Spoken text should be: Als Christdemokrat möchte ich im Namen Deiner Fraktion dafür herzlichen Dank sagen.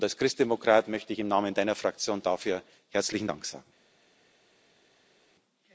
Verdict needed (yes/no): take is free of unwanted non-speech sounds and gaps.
yes